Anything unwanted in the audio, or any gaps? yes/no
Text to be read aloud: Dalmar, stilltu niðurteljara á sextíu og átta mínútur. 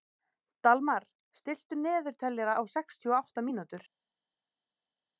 no